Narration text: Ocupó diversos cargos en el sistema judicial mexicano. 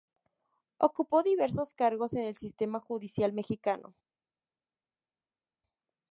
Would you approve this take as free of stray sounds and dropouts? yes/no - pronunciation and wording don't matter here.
yes